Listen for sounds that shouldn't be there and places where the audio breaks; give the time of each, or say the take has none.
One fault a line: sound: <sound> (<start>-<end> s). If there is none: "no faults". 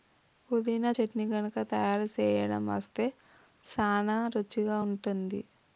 no faults